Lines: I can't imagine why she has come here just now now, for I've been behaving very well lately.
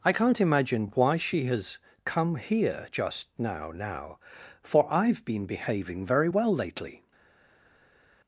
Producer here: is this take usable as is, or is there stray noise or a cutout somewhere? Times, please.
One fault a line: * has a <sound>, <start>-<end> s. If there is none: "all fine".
all fine